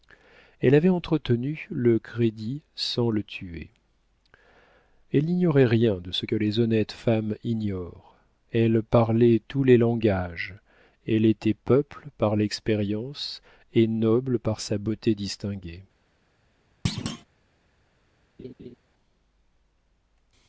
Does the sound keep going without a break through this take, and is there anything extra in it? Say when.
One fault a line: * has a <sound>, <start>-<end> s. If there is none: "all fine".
* has a thud, 16.8-17.2 s
* has a laugh, 18.4-18.8 s